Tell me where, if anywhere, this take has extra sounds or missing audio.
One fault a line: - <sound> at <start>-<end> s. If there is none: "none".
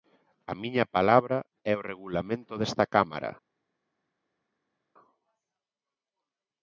none